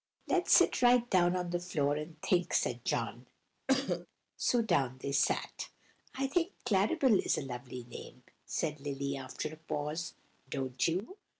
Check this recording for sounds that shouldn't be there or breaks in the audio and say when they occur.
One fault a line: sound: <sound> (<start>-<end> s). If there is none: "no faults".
sound: cough (3.7-4.1 s)